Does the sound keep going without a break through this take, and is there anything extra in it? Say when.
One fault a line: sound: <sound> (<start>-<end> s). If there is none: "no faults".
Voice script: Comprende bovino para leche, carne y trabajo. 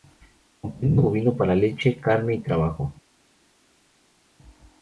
no faults